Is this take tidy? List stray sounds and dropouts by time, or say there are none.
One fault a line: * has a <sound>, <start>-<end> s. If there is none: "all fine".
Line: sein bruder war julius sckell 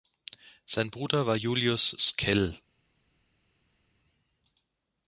all fine